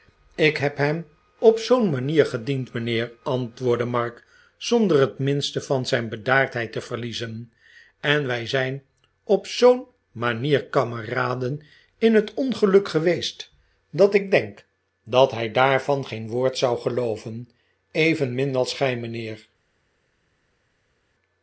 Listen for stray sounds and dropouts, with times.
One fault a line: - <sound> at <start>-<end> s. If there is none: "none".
none